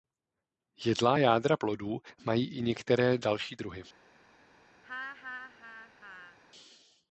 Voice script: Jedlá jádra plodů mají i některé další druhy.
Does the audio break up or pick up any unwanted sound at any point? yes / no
yes